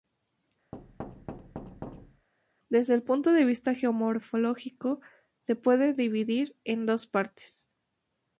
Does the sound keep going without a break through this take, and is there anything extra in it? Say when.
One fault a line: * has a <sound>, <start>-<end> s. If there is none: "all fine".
* has a thud, 0.7-2.3 s